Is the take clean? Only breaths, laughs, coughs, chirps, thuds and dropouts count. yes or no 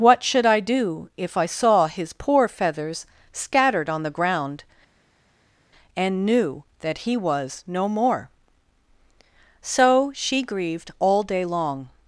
yes